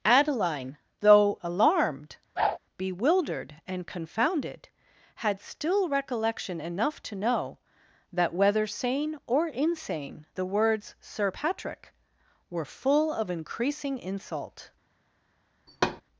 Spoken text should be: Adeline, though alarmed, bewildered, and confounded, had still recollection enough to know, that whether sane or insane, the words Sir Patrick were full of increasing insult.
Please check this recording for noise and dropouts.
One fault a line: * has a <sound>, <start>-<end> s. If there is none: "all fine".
* has a whoosh, 2.4-2.6 s
* has a thud, 15.7-16.0 s